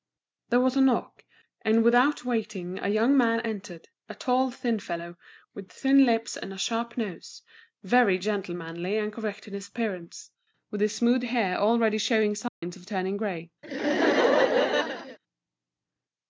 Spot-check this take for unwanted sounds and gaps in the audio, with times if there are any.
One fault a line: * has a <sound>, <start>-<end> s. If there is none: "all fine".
* has a dropout, 12.5-12.6 s
* has a laugh, 13.6-15.2 s